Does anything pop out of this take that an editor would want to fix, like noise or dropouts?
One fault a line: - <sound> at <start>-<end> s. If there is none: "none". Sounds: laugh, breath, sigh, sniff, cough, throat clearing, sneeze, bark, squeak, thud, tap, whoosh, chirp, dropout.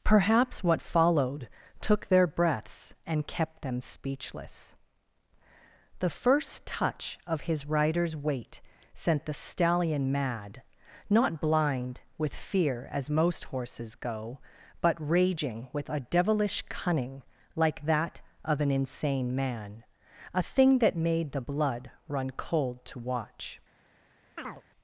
- chirp at 24.4-24.6 s